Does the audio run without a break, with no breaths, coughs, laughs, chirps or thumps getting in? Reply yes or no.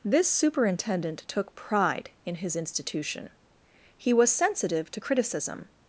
yes